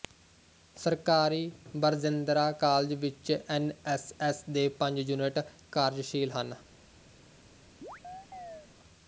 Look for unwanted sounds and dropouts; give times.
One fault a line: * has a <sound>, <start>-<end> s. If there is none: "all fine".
* has a chirp, 7.8-8.7 s